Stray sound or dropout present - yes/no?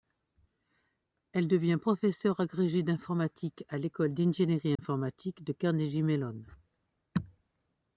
yes